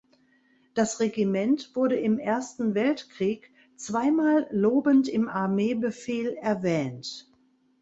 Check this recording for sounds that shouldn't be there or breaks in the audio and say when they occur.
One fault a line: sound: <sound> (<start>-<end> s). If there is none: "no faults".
no faults